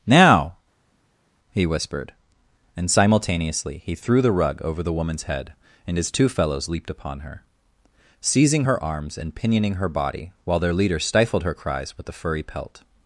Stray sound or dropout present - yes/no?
no